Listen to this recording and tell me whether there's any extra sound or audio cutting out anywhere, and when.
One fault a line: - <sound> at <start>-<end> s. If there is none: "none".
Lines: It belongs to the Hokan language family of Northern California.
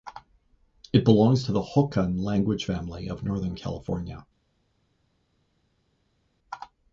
none